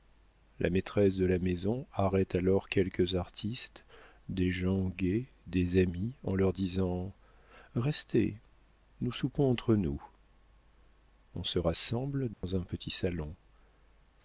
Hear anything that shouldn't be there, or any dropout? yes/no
yes